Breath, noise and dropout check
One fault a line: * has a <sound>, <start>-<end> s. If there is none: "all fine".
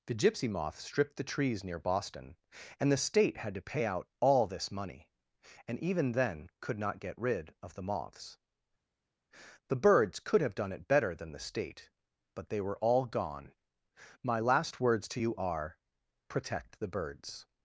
all fine